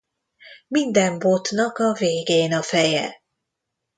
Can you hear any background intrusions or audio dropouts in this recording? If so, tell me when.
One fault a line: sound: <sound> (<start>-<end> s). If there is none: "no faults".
no faults